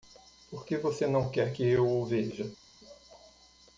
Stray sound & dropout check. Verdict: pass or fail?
pass